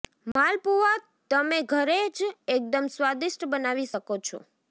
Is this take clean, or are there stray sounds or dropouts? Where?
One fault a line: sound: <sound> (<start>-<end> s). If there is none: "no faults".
sound: dropout (0.3-0.4 s)